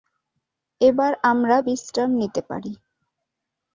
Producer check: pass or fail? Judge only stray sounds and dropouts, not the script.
pass